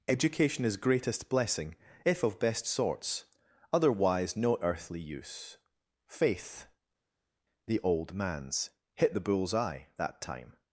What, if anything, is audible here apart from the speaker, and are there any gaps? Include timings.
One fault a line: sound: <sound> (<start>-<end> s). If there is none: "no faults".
no faults